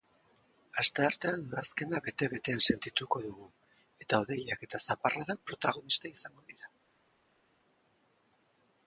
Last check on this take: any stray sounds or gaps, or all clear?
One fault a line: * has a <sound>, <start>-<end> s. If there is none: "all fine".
all fine